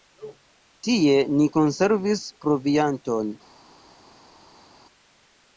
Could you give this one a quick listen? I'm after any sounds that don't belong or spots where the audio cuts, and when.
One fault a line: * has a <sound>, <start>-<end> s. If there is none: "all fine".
all fine